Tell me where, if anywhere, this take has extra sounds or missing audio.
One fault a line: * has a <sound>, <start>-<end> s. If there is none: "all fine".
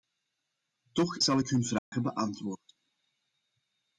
* has a dropout, 1.8-1.9 s